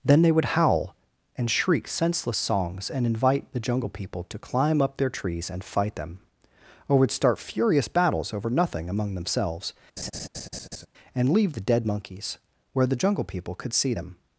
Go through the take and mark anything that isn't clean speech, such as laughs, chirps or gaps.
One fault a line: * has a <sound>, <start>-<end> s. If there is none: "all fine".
* has a laugh, 10.0-10.9 s